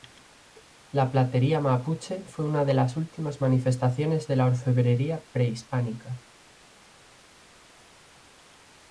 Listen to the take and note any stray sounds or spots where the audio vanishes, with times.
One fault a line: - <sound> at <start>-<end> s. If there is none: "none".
none